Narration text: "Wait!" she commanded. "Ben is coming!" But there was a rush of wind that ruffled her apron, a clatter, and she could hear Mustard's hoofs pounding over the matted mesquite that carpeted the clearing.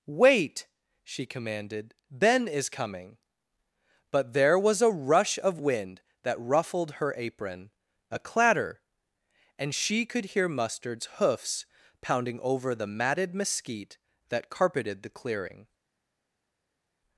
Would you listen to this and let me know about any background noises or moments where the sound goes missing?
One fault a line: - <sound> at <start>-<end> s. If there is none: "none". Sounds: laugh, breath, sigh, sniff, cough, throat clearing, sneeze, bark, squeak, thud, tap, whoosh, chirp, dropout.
none